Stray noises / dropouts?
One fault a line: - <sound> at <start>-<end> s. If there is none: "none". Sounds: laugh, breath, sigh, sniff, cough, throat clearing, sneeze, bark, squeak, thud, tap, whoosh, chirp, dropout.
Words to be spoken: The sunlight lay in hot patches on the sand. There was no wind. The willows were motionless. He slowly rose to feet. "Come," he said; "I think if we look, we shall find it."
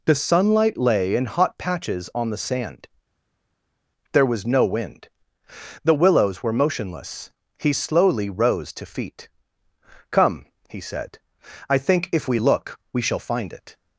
none